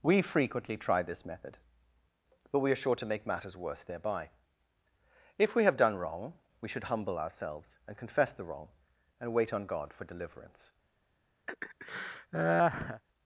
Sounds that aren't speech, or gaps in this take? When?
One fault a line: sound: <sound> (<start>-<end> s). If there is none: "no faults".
sound: laugh (11.5-13.0 s)